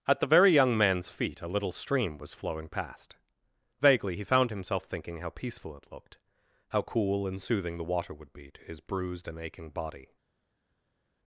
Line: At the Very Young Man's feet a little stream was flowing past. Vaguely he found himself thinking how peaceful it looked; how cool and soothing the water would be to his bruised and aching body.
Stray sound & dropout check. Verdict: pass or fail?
pass